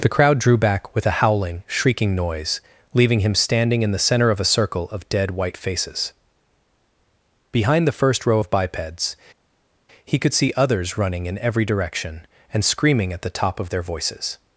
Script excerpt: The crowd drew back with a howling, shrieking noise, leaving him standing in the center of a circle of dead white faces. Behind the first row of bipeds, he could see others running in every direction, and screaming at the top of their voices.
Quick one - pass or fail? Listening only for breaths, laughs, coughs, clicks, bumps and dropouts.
pass